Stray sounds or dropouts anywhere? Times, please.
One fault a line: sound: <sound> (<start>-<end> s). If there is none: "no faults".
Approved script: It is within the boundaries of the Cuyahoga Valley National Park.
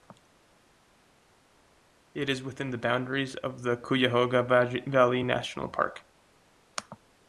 no faults